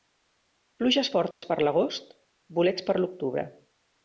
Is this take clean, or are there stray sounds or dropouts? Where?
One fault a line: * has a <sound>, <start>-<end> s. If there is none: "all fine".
* has a dropout, 1.3-1.4 s